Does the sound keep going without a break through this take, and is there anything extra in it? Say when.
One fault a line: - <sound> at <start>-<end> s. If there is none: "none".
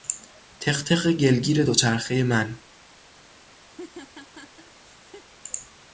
- laugh at 3.7-5.3 s